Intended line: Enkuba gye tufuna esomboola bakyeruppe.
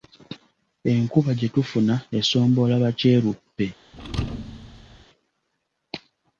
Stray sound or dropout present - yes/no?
yes